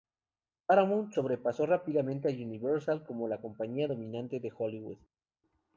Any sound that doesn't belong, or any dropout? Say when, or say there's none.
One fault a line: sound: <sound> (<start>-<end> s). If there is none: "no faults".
no faults